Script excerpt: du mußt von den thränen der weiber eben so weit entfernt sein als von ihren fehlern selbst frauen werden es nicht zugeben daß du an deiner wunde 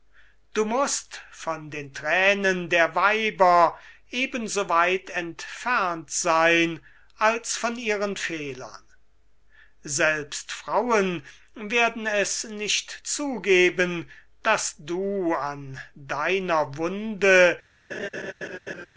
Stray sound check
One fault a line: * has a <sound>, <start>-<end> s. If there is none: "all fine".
* has a laugh, 17.9-18.9 s